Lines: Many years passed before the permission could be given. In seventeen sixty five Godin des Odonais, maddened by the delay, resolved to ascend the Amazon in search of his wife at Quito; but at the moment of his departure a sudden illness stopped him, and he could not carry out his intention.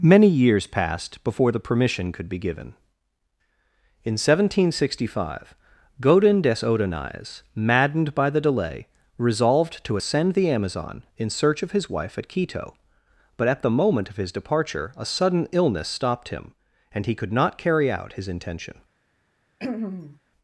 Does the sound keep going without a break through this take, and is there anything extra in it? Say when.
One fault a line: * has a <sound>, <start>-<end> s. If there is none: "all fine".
* has a throat clearing, 19.6-20.2 s